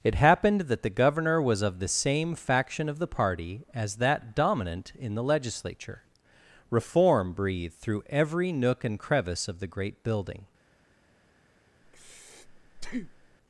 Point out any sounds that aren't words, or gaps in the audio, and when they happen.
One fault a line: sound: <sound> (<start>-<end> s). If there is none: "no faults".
sound: breath (11.8-13.4 s)